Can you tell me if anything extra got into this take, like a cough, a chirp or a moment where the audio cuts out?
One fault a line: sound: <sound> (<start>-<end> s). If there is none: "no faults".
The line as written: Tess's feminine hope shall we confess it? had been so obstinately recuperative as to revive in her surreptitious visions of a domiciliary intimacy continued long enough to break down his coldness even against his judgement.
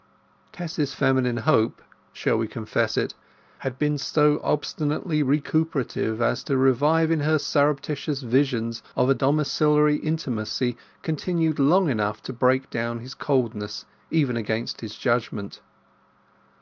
no faults